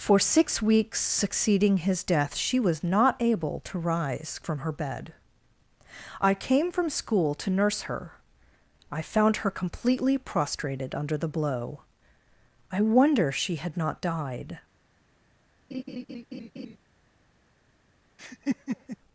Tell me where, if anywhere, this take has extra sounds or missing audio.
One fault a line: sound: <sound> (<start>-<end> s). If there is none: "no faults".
sound: laugh (15.7-16.8 s)
sound: laugh (18.2-19.0 s)